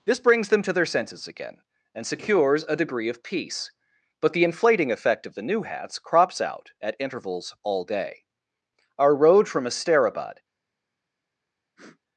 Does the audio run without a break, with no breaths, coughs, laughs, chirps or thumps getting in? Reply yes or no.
no